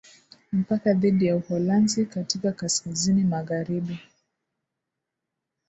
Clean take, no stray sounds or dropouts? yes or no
yes